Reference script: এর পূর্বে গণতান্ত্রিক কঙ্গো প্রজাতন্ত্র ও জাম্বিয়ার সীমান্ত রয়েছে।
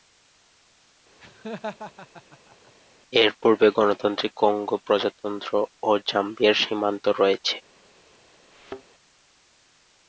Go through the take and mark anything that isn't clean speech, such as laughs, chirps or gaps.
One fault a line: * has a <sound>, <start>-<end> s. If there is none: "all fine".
* has a laugh, 1.2-2.7 s
* has a thud, 8.5-8.8 s